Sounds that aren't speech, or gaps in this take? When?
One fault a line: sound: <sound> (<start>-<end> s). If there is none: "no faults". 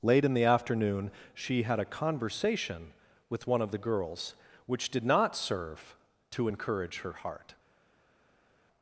no faults